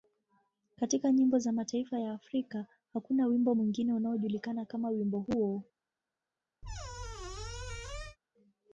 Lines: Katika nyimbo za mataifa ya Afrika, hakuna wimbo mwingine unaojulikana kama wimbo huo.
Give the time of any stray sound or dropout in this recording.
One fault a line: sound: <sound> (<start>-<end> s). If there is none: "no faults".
sound: squeak (6.6-8.2 s)